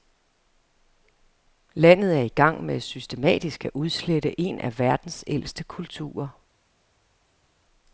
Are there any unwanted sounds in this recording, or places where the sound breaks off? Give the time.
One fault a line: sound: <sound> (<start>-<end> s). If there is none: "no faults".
no faults